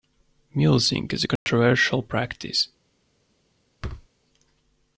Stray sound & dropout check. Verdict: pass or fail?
fail